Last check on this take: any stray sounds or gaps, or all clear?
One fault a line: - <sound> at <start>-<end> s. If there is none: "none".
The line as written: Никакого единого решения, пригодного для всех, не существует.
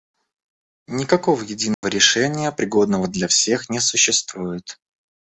- dropout at 1.7-1.8 s